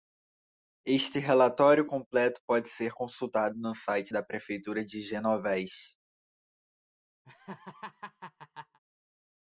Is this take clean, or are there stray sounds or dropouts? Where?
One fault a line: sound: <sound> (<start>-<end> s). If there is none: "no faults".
sound: laugh (7.2-8.8 s)